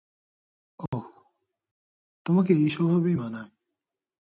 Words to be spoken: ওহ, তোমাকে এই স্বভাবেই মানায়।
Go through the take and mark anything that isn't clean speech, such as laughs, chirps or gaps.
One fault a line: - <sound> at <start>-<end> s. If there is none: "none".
- dropout at 0.9-0.9 s